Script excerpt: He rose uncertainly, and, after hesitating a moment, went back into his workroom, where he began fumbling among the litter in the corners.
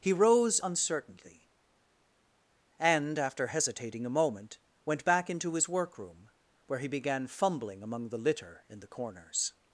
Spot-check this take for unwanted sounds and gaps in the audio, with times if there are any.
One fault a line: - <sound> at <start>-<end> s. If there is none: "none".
none